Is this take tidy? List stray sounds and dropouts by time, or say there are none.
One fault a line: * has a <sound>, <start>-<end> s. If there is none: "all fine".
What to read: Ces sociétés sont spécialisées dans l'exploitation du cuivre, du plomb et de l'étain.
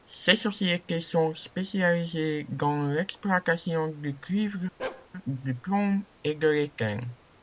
* has a bark, 4.8-5.1 s